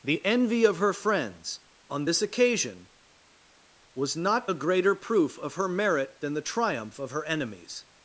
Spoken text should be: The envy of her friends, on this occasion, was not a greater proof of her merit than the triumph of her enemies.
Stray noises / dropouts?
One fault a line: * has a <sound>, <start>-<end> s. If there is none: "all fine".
all fine